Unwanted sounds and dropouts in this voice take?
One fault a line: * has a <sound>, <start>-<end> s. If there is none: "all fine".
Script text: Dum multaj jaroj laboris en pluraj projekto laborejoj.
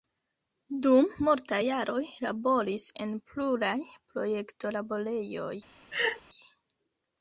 * has a laugh, 5.9-6.2 s